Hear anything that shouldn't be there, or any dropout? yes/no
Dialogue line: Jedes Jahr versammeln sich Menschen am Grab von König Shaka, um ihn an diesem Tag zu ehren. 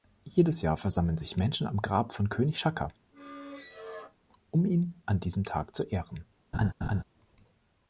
yes